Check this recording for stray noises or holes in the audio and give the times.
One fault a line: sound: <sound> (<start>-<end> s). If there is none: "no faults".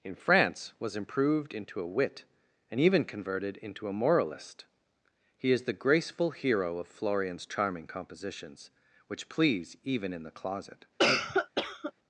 sound: cough (11.0-11.9 s)